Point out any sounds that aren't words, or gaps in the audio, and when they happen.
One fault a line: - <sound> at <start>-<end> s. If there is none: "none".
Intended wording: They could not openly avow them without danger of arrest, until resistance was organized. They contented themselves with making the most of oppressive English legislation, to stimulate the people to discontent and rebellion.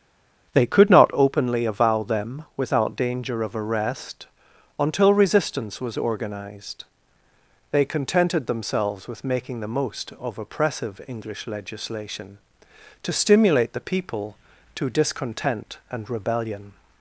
none